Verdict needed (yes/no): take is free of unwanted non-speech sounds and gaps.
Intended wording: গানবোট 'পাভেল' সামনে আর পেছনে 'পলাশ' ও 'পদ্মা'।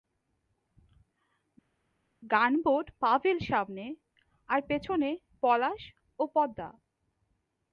yes